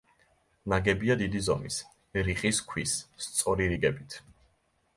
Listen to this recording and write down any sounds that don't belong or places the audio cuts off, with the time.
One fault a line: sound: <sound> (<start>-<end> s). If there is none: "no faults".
no faults